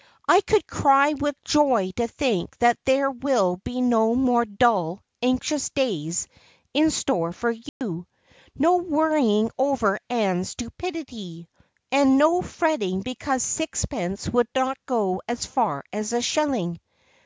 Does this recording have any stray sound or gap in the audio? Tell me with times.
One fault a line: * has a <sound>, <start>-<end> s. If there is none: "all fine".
* has a dropout, 7.7-7.8 s